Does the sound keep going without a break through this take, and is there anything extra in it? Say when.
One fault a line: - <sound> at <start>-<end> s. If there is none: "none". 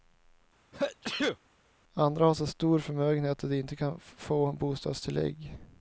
- sneeze at 0.7-1.4 s